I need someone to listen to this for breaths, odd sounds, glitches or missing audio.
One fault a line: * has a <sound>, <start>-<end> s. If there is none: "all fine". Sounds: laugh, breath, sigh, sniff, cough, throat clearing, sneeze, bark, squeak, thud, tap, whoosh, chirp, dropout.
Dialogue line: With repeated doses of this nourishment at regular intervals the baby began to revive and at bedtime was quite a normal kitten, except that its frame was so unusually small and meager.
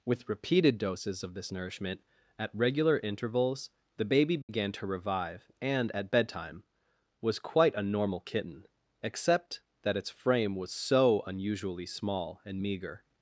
* has a dropout, 4.4-4.5 s